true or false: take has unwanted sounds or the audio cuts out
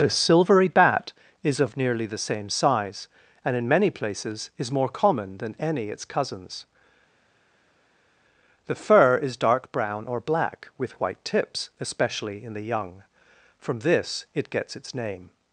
false